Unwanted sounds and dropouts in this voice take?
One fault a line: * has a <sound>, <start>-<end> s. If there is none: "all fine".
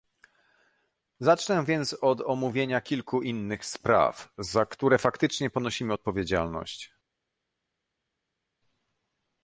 all fine